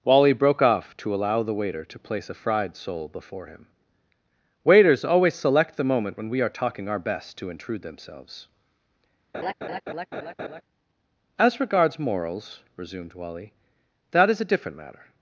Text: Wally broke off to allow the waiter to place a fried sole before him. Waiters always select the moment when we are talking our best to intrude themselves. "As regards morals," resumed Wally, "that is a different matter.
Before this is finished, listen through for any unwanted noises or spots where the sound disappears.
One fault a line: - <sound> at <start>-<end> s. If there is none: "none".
- laugh at 9.3-10.6 s